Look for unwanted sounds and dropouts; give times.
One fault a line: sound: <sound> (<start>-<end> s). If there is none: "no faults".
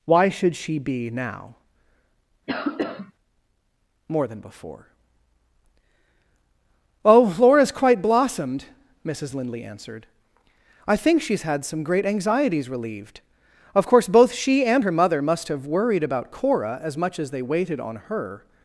sound: cough (2.5-3.1 s)